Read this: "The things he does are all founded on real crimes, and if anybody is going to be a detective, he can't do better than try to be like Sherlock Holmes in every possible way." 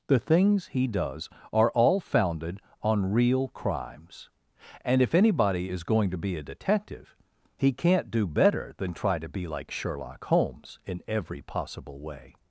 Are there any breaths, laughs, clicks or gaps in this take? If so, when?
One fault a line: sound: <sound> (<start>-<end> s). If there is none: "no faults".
no faults